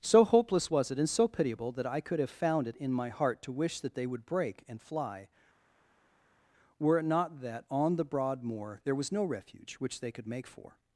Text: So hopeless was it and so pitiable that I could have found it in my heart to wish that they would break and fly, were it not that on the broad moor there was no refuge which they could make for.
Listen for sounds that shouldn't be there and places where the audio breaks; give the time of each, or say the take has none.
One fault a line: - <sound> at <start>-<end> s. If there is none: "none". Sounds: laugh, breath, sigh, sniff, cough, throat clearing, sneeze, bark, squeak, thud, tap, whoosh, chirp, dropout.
none